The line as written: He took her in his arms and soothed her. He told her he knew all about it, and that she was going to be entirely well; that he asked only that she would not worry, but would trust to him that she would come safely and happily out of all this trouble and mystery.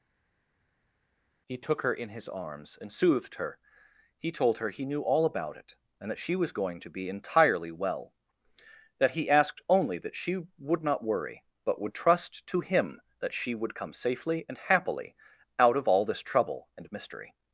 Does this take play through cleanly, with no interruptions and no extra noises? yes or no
yes